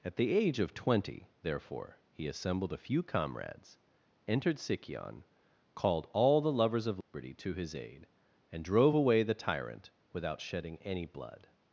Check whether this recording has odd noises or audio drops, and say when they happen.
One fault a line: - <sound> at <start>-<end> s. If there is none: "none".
- dropout at 7.0-7.1 s